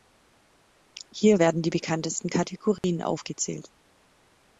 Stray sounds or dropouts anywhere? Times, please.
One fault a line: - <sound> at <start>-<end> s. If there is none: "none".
- dropout at 2.8-2.8 s